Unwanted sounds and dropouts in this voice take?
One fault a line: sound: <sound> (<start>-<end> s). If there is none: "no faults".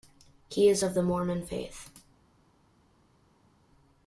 no faults